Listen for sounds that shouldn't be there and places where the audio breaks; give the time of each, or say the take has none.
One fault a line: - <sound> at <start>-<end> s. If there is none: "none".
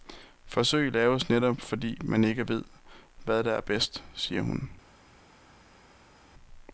none